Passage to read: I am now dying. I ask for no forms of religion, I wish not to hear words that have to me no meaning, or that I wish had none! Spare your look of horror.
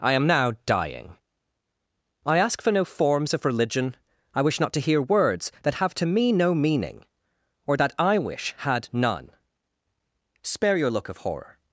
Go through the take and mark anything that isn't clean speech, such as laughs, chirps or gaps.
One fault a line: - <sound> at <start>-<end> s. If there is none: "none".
none